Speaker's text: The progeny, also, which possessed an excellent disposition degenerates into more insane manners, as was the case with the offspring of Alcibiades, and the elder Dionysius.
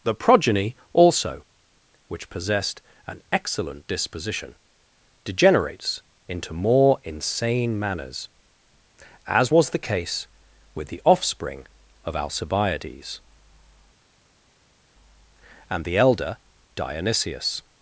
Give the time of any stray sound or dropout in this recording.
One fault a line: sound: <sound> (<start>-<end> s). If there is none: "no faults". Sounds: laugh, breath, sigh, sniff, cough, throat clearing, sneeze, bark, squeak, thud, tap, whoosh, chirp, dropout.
no faults